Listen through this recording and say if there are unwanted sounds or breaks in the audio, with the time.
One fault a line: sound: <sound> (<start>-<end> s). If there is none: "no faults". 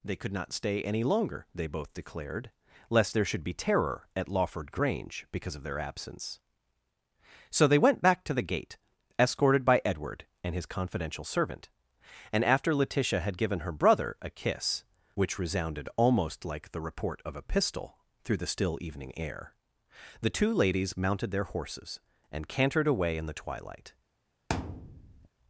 sound: thud (24.5-25.3 s)